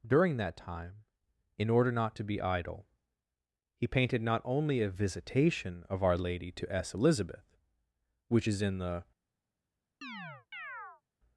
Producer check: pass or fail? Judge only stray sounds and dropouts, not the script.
fail